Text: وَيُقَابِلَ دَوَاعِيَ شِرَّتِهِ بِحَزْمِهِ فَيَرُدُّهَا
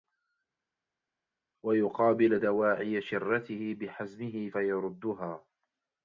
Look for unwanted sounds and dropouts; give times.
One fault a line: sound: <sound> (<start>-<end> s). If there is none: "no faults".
no faults